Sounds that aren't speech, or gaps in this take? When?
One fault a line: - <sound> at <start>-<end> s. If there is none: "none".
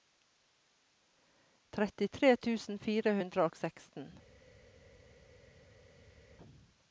none